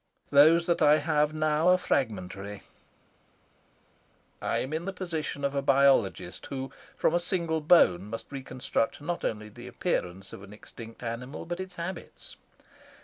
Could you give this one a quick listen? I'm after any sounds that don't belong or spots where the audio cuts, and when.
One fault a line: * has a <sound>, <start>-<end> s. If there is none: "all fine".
all fine